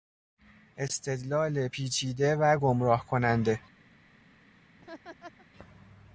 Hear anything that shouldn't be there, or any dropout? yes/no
yes